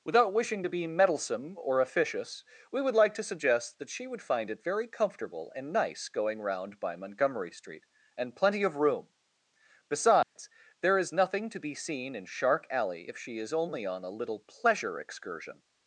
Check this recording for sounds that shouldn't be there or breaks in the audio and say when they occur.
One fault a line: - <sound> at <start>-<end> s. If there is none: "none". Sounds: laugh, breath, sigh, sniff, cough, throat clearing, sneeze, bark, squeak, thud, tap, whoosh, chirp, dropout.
- dropout at 10.2-10.4 s